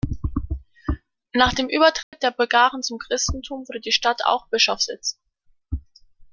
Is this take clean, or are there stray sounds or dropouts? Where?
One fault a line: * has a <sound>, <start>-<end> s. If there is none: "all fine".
* has a dropout, 2.0-2.1 s